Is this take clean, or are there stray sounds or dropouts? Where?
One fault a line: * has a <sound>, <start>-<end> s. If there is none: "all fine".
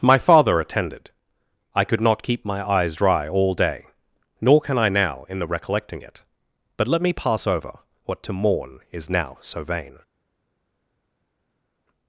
all fine